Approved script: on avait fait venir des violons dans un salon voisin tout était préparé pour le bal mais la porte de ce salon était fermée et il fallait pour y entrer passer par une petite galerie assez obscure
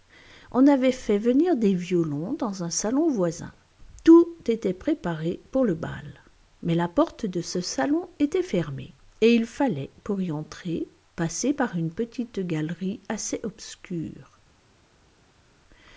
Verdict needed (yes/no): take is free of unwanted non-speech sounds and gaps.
yes